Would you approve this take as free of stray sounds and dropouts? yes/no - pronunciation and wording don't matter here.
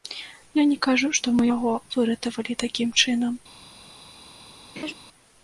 no